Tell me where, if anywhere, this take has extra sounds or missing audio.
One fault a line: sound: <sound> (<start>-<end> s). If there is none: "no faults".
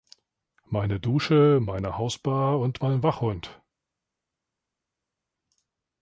no faults